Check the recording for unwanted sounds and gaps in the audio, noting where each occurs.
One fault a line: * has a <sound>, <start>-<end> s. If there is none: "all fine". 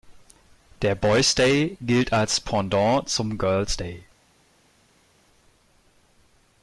all fine